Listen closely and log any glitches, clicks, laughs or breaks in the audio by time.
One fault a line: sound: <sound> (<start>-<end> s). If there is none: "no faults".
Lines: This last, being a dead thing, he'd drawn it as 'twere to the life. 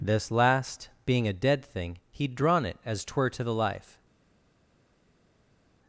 no faults